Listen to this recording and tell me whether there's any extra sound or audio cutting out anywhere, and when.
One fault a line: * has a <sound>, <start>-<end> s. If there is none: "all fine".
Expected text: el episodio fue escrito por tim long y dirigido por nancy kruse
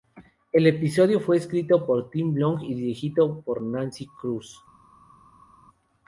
all fine